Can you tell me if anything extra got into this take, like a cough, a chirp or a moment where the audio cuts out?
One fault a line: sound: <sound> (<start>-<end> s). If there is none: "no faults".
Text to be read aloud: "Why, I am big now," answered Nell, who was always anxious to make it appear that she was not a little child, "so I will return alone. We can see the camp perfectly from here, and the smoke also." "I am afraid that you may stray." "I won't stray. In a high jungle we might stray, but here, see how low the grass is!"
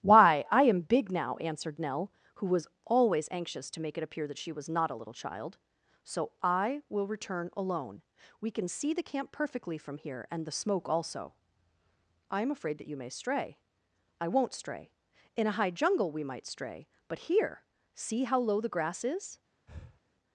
sound: breath (19.7-20.0 s)